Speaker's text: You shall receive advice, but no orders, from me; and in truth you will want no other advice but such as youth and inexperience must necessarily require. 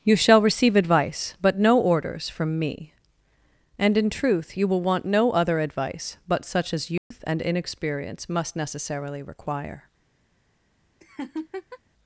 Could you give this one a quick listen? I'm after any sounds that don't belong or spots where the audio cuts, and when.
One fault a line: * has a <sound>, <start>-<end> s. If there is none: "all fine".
* has a dropout, 7.0-7.1 s
* has a laugh, 11.0-11.8 s